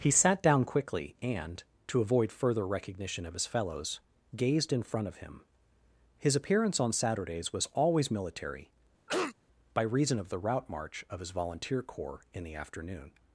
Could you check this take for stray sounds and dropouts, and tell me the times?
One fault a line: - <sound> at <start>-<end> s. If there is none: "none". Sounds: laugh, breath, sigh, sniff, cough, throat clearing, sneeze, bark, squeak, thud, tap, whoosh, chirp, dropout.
- cough at 9.1-9.3 s